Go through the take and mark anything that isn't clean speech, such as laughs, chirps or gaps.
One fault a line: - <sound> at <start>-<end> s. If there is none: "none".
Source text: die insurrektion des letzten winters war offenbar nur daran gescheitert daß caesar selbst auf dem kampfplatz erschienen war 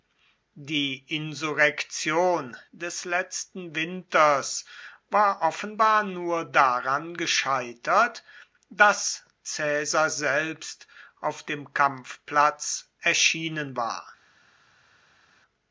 none